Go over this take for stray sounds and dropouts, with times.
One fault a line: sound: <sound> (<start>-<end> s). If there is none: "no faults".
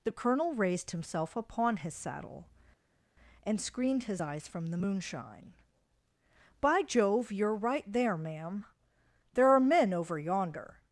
no faults